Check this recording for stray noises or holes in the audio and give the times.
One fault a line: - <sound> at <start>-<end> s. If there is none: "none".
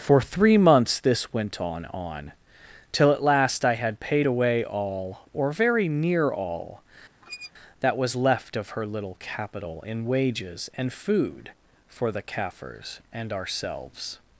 - squeak at 7.2-7.5 s